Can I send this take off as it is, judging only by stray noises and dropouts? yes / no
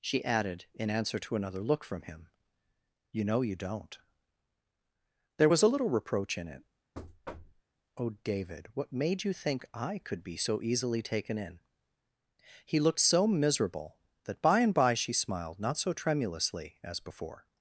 no